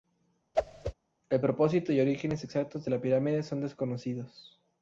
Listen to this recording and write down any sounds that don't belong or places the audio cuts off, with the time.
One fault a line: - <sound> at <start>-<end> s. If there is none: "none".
- whoosh at 0.5-0.9 s